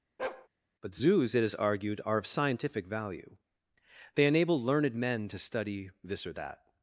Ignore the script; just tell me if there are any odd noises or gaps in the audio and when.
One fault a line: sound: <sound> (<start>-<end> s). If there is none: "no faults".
sound: bark (0.2-0.5 s)